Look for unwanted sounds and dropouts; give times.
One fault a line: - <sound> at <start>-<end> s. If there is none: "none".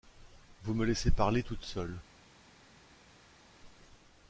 none